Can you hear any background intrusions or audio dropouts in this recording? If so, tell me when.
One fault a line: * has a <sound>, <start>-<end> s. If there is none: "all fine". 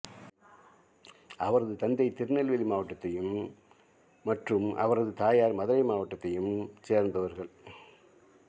all fine